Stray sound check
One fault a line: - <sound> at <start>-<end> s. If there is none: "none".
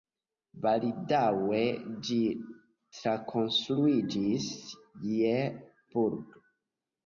none